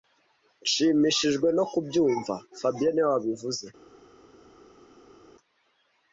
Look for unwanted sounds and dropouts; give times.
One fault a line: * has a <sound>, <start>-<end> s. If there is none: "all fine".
all fine